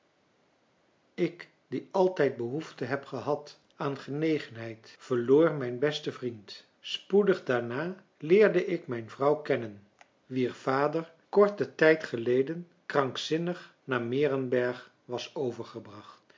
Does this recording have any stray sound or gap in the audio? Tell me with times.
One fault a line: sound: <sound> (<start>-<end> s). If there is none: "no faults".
no faults